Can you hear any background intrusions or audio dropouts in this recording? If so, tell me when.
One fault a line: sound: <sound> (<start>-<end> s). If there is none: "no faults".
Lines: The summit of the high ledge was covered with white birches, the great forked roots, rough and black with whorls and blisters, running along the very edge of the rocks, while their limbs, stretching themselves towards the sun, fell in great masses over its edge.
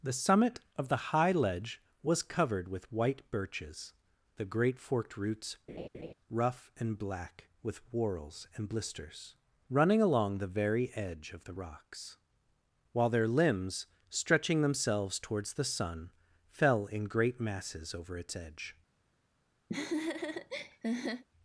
sound: laugh (5.7-6.1 s)
sound: laugh (19.7-21.2 s)